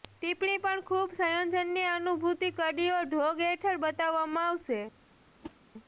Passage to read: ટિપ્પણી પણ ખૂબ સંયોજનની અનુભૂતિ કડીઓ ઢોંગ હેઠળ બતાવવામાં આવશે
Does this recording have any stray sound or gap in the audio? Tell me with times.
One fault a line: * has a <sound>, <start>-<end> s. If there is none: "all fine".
* has a whoosh, 5.4-5.6 s